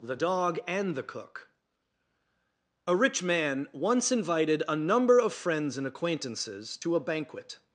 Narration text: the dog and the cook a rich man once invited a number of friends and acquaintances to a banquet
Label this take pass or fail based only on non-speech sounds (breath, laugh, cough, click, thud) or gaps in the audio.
pass